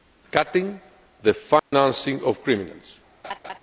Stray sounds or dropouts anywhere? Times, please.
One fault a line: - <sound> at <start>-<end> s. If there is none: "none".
- dropout at 1.6-1.7 s
- laugh at 3.2-3.6 s